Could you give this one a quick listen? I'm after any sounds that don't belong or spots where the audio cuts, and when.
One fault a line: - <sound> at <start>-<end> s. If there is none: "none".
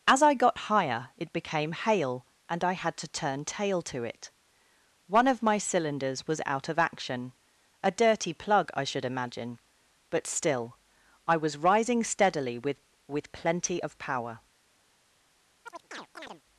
- chirp at 15.7-16.4 s